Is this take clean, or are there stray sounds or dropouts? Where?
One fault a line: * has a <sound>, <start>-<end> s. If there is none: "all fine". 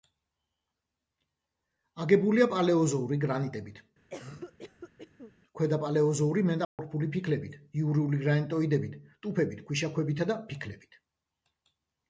* has a cough, 4.1-5.3 s
* has a dropout, 6.6-6.8 s